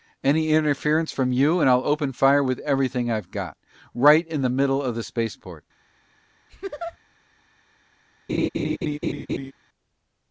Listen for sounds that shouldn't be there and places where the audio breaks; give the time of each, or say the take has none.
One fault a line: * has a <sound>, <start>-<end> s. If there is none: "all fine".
* has a laugh, 6.5-7.0 s
* has a laugh, 8.3-9.5 s